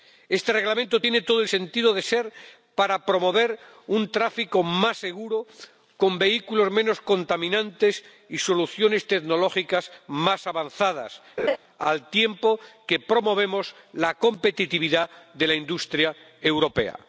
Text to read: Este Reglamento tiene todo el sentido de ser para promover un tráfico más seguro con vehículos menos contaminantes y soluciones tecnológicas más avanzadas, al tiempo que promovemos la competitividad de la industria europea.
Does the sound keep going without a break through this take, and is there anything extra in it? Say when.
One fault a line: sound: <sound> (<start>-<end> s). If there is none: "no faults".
sound: laugh (11.4-11.6 s)